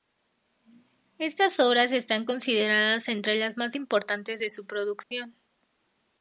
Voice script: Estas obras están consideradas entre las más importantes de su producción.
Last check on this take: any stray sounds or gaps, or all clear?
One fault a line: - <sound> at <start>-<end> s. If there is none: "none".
- dropout at 5.0-5.1 s